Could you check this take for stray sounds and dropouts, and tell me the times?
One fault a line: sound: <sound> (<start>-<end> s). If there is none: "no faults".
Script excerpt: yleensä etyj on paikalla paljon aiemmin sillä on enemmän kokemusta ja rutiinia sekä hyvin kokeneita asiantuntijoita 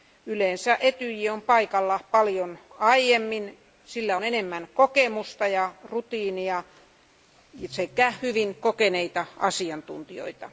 no faults